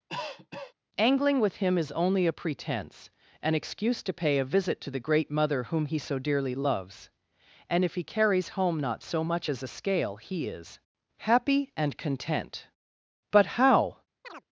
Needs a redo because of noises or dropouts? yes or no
yes